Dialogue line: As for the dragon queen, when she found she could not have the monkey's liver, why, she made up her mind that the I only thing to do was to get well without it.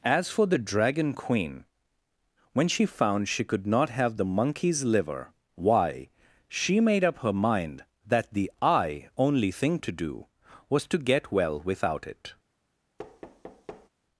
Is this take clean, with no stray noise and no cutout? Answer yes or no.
no